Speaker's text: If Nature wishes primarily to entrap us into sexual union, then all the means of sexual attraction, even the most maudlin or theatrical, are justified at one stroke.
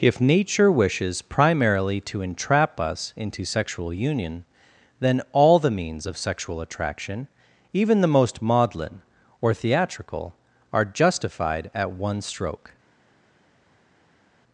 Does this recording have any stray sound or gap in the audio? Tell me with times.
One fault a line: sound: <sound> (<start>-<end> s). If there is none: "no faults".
no faults